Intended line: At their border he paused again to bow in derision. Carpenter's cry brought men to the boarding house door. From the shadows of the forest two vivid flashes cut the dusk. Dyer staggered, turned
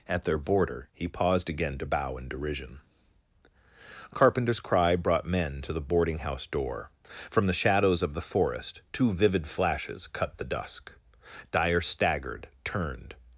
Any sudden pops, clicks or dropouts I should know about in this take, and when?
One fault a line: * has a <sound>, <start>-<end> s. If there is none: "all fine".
all fine